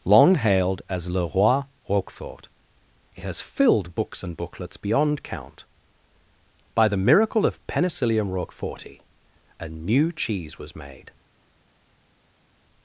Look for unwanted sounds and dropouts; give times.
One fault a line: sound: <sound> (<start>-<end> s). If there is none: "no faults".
no faults